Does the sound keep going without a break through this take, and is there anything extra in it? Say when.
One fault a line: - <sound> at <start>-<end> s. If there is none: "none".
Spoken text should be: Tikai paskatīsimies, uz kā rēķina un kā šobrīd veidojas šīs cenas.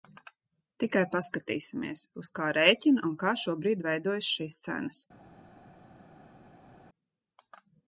none